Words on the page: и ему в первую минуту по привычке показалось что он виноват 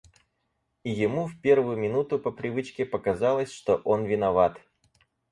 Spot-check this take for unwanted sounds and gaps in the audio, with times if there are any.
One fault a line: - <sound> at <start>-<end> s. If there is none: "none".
none